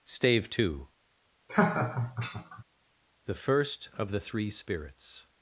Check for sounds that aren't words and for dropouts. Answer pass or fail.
fail